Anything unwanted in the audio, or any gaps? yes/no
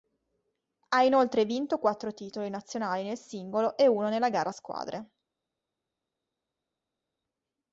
no